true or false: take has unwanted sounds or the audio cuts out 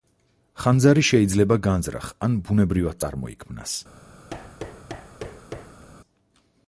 true